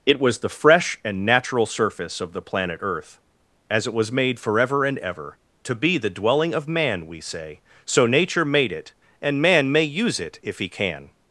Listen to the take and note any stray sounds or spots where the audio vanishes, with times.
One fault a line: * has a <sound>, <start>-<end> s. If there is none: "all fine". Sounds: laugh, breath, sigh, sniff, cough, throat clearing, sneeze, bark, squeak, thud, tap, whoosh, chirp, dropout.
all fine